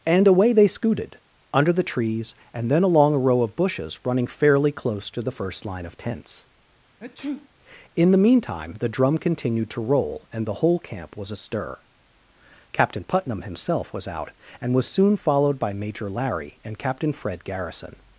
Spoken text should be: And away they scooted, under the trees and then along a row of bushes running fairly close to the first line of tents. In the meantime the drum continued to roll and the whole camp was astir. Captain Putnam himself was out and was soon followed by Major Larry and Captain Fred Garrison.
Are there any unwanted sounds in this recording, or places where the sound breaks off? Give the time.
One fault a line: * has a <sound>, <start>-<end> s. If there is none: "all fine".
* has a sneeze, 7.0-7.5 s